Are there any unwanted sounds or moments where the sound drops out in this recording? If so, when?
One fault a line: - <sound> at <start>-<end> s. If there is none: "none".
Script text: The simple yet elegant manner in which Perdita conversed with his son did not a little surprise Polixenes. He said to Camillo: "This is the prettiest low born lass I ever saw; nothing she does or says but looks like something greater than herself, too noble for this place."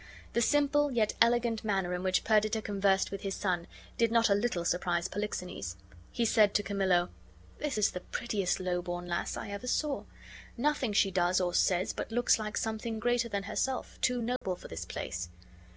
- dropout at 14.4-14.4 s